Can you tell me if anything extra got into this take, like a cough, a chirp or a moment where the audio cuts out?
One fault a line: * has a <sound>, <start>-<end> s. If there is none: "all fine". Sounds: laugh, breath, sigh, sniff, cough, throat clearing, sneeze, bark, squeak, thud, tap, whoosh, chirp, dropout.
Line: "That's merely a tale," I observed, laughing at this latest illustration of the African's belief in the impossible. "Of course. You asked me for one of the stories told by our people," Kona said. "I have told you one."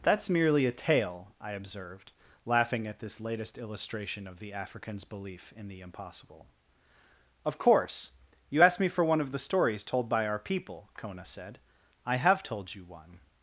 all fine